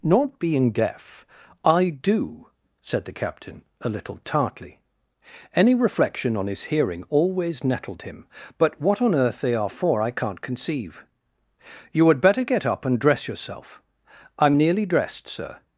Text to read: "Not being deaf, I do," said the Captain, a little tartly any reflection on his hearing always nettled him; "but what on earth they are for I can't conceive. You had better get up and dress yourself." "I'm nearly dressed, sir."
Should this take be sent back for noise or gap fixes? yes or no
no